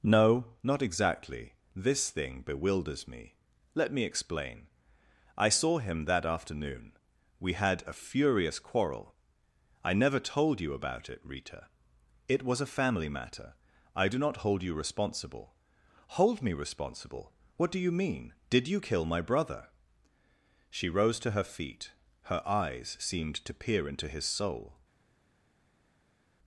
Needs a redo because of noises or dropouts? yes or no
no